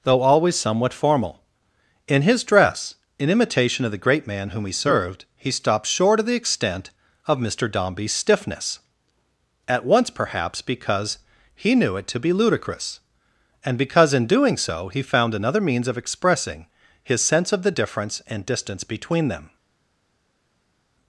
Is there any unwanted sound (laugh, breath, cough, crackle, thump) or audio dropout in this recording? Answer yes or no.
no